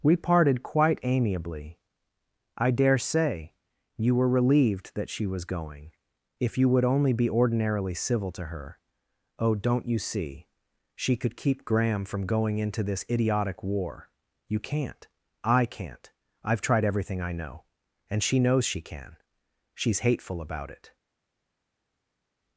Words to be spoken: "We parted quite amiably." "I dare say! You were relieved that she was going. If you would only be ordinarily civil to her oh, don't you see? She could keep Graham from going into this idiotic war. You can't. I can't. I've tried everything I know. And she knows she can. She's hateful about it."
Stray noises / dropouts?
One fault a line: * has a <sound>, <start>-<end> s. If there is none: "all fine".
all fine